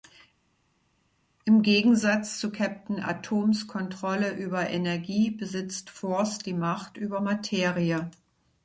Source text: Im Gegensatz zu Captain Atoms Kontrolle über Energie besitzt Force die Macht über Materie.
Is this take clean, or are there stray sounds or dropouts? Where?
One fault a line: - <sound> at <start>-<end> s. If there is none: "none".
none